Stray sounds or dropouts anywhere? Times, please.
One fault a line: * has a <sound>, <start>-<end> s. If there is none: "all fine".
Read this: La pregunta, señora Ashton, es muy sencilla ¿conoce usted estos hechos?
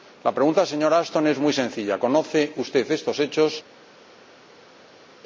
all fine